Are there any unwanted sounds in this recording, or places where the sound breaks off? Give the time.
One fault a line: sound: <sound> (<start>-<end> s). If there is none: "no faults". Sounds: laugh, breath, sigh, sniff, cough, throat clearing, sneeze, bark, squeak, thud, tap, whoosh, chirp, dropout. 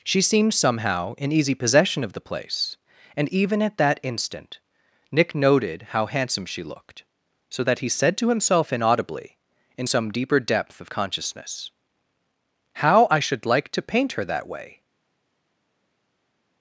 no faults